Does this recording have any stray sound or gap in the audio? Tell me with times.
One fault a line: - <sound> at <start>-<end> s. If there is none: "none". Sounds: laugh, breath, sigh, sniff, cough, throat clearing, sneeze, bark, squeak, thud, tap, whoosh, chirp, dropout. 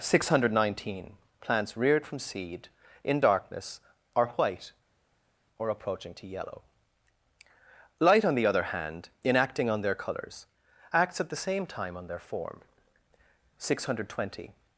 none